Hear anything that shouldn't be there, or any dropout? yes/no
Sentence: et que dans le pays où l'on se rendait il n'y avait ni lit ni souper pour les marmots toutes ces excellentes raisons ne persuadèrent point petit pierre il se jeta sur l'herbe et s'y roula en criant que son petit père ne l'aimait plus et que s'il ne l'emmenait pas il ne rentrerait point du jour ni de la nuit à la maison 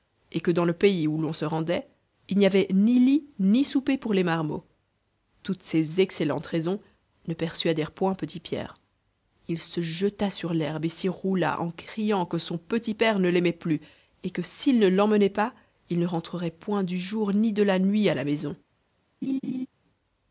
yes